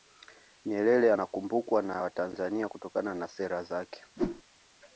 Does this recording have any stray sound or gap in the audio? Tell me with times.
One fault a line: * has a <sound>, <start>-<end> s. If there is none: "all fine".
* has a whoosh, 4.2-4.4 s